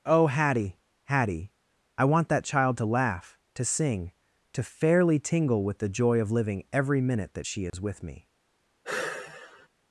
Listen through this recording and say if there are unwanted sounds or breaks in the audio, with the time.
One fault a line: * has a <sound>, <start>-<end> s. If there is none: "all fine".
* has a dropout, 7.7-7.7 s
* has a sigh, 8.8-9.7 s